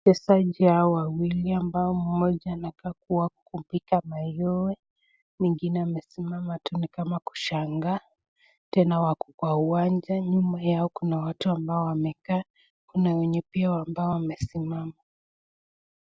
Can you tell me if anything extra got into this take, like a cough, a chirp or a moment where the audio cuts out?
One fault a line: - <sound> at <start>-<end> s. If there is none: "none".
none